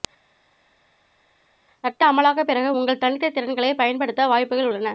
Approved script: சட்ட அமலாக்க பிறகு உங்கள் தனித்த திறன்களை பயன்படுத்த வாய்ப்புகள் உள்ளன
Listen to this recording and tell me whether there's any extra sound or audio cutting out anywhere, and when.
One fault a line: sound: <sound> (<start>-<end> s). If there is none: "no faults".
no faults